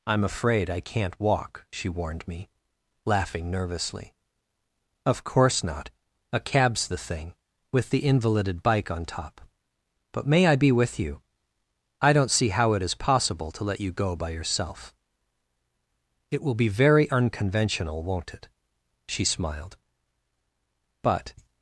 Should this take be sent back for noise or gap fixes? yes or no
no